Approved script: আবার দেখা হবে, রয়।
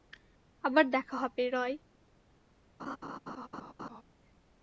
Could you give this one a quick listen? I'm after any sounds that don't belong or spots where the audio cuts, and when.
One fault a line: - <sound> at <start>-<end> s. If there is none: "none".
- laugh at 2.8-4.0 s